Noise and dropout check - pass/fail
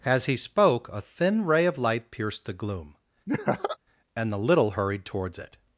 fail